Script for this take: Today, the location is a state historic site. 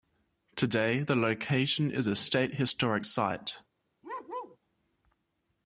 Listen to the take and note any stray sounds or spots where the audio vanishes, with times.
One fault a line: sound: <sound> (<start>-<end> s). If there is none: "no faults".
sound: bark (4.0-4.6 s)